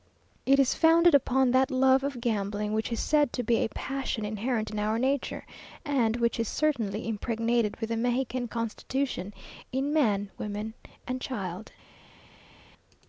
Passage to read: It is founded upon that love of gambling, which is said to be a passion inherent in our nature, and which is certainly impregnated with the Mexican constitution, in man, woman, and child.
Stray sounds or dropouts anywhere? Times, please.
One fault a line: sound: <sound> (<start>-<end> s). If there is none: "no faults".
no faults